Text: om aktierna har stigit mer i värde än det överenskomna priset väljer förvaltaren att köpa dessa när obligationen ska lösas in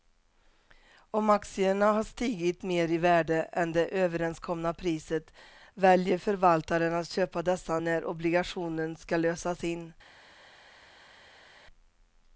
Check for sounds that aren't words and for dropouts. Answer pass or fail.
pass